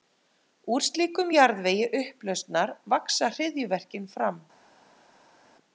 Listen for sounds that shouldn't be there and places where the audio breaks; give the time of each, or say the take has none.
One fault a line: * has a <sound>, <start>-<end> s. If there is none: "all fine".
all fine